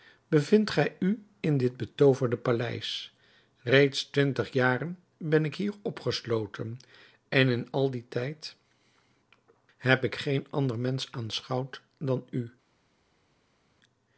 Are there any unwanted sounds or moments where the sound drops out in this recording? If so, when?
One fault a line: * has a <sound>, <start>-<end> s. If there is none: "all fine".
all fine